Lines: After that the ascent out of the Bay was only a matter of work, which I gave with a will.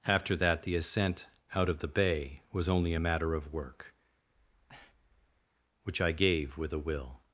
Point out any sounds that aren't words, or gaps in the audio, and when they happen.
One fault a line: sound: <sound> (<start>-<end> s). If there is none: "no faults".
sound: breath (4.3-5.5 s)